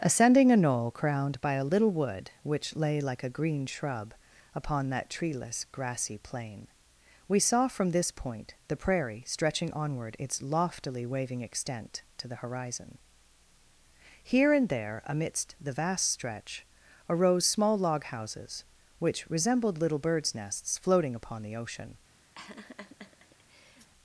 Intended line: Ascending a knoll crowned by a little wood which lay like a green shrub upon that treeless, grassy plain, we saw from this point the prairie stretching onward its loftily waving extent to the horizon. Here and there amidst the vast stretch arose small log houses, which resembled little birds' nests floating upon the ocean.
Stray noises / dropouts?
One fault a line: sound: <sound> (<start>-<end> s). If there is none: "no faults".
sound: laugh (22.3-23.9 s)